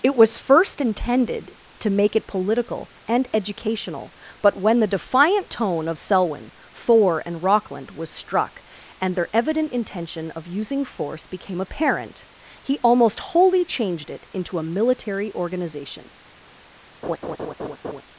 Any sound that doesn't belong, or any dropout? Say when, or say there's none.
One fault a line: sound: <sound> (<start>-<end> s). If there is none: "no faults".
sound: laugh (17.0-18.0 s)